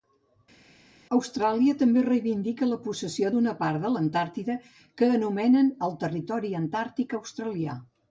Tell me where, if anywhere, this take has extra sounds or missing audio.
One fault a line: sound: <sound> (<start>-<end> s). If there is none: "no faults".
no faults